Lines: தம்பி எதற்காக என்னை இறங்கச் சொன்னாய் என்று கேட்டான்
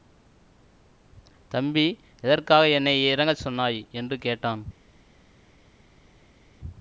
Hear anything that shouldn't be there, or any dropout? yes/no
no